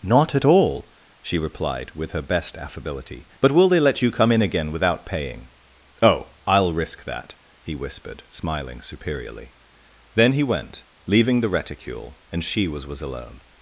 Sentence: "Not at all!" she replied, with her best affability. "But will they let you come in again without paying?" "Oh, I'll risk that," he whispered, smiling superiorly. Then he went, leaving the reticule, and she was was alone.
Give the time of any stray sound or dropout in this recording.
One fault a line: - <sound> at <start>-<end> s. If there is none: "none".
none